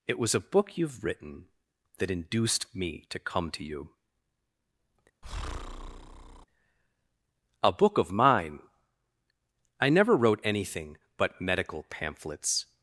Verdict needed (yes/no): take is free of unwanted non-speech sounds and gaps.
no